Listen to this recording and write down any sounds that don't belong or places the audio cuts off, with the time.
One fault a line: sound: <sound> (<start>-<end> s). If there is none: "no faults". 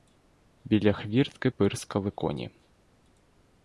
no faults